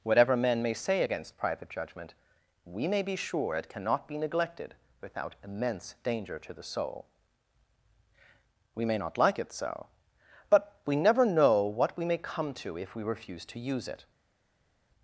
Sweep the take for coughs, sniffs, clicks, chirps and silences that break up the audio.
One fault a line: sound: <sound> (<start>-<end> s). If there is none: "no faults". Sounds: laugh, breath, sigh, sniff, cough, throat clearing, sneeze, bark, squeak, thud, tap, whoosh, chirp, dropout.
no faults